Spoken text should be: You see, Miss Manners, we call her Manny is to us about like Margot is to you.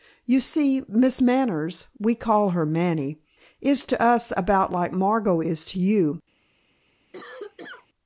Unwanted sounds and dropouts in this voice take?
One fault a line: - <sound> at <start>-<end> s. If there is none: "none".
- cough at 7.1-7.9 s